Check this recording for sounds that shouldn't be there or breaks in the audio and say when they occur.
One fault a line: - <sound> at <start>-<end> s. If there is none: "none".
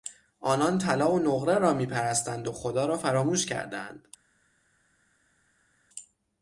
none